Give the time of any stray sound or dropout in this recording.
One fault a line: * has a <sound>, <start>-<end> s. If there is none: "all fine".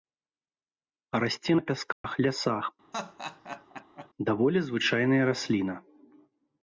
* has a dropout, 1.9-2.0 s
* has a laugh, 2.9-4.1 s